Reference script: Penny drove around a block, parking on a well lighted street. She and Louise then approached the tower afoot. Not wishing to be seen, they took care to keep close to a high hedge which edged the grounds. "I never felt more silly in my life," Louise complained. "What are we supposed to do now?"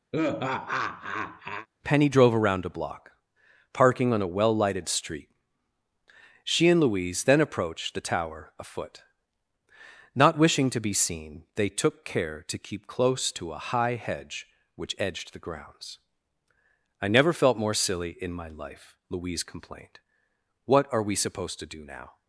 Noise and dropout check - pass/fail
fail